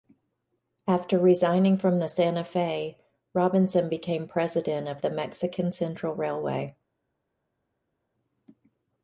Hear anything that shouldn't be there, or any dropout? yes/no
no